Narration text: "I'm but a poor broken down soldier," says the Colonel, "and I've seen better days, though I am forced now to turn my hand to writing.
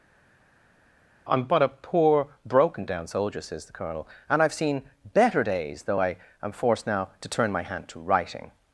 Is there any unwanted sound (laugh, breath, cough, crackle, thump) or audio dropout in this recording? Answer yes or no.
no